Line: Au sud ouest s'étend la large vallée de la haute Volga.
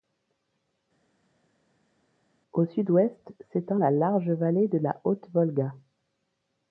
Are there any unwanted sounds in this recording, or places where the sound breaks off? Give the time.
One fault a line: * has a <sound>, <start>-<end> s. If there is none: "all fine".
all fine